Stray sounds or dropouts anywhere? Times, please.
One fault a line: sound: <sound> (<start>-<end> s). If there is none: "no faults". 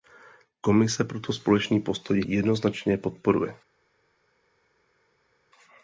no faults